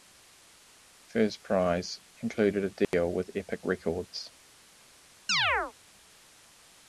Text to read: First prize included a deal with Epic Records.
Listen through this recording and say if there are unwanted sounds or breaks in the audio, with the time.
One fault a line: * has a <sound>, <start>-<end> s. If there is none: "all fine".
* has a dropout, 2.8-2.9 s
* has a chirp, 5.3-5.7 s